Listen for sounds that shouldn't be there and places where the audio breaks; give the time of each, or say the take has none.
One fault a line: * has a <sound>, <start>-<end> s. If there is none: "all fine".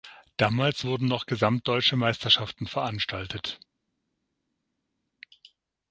all fine